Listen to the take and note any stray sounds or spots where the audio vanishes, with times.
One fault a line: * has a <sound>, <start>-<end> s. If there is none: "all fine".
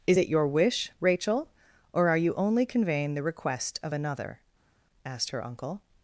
all fine